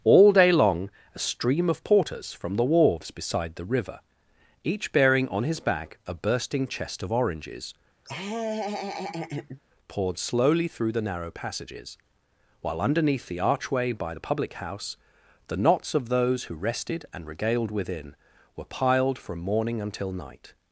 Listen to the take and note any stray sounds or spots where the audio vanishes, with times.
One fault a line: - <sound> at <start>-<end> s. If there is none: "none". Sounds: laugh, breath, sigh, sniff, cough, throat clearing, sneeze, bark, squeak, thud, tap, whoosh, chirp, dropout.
- laugh at 8.0-9.6 s